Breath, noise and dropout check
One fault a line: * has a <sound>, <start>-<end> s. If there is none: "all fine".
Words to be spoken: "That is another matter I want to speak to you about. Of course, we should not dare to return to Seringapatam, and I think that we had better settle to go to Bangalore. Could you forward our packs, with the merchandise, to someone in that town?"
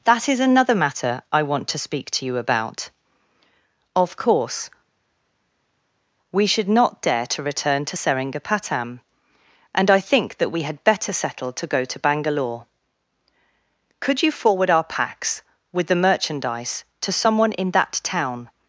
all fine